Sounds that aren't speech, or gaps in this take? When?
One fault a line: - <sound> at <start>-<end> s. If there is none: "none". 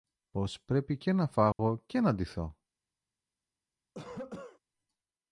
- dropout at 1.5-1.6 s
- cough at 3.9-4.6 s